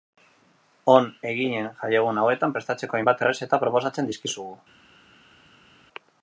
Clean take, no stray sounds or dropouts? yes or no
yes